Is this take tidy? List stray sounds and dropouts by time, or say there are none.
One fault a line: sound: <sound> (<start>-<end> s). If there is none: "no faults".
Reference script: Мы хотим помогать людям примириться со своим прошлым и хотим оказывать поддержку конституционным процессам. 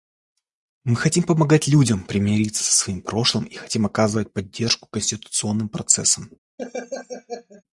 sound: laugh (6.6-7.6 s)